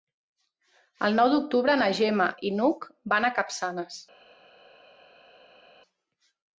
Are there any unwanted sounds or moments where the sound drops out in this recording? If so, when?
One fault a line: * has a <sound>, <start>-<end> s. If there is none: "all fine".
all fine